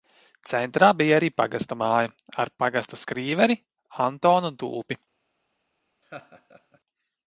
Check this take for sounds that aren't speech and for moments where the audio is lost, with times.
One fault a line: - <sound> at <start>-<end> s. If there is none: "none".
- laugh at 6.0-6.8 s